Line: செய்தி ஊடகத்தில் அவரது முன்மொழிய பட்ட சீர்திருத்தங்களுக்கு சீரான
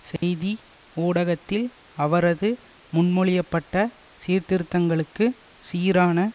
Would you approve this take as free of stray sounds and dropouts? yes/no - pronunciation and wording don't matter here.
no